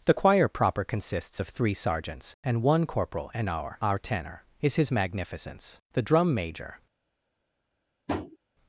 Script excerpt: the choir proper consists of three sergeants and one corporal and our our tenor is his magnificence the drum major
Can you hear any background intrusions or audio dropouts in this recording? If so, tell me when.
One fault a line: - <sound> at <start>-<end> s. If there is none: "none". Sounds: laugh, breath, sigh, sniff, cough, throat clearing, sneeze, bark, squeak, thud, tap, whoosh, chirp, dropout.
- tap at 8.1-8.4 s